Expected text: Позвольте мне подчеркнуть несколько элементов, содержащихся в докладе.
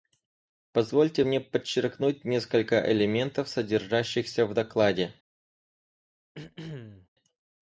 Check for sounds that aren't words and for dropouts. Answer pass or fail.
fail